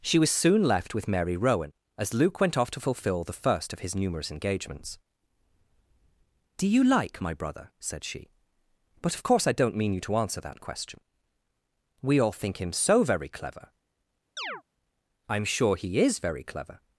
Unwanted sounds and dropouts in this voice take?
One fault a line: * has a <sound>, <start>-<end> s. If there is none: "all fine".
* has a chirp, 14.4-14.6 s